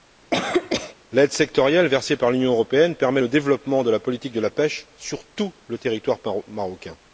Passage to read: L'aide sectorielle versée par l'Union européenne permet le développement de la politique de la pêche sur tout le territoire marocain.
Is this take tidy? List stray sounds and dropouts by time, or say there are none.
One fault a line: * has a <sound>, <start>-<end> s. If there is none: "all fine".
* has a cough, 0.3-0.9 s